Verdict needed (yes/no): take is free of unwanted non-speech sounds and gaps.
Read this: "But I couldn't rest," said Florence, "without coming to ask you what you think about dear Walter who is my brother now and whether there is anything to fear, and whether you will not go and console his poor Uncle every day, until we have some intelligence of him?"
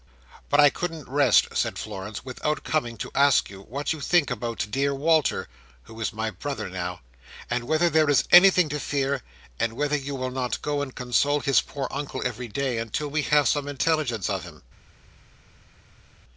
yes